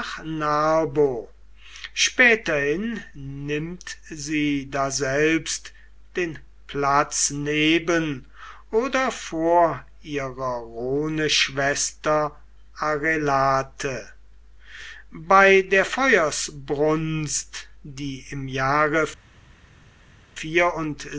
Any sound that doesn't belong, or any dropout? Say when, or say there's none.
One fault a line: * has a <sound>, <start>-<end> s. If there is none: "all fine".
all fine